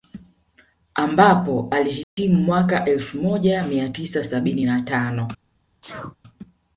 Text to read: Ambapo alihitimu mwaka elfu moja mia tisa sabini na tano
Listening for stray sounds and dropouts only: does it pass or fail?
fail